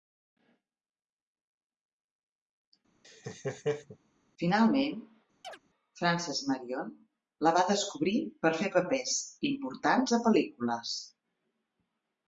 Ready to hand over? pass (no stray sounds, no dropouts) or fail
fail